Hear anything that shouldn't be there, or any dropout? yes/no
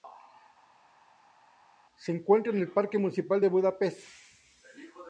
no